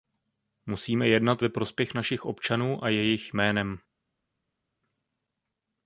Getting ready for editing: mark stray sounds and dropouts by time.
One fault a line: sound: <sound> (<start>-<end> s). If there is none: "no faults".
no faults